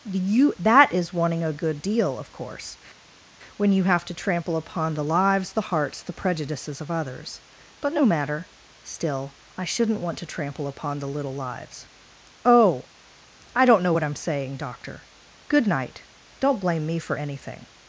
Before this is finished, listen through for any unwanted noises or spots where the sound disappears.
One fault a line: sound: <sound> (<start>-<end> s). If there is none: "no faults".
no faults